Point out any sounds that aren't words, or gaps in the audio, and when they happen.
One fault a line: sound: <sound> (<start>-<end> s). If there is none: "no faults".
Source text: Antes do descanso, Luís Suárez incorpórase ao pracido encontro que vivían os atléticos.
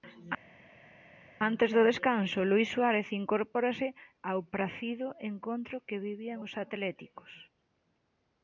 no faults